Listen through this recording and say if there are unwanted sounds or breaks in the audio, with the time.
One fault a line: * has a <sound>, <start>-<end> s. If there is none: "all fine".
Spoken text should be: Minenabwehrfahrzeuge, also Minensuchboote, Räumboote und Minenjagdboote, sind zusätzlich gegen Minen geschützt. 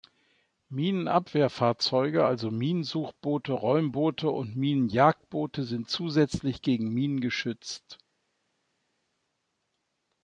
all fine